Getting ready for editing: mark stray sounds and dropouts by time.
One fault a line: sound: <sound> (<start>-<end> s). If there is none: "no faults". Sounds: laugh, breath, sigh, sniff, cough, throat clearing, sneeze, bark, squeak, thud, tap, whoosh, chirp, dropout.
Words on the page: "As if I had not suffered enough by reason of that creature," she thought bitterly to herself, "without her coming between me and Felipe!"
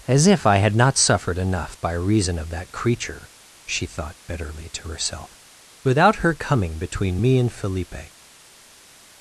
no faults